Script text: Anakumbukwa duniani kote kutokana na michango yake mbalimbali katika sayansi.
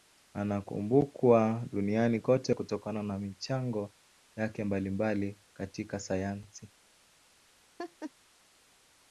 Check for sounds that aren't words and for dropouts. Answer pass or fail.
fail